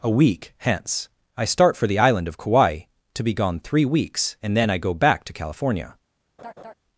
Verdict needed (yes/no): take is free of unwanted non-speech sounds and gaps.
no